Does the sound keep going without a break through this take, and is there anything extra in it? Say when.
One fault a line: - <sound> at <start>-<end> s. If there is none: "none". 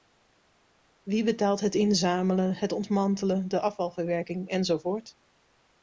none